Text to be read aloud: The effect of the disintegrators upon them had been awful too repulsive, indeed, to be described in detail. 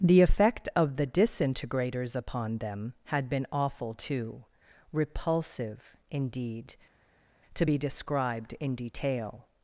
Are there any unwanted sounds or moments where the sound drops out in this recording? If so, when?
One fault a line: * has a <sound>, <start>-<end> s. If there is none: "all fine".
all fine